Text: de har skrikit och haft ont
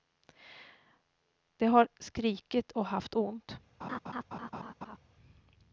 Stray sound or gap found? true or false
true